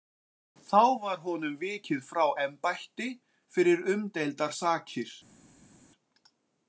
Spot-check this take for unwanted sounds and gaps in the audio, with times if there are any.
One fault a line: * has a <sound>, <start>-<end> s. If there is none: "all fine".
all fine